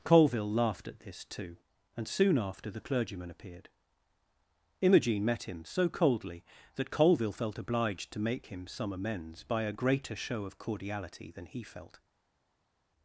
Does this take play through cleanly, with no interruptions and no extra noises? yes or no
yes